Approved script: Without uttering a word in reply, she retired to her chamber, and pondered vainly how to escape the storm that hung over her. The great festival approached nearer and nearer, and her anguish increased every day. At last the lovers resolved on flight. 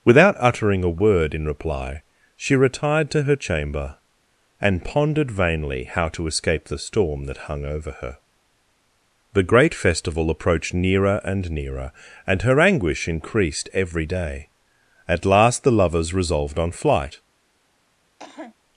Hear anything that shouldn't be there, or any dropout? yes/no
yes